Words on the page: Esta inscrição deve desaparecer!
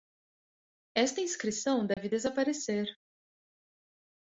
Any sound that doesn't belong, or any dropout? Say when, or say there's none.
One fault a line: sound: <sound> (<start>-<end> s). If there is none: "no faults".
sound: dropout (1.9-2.0 s)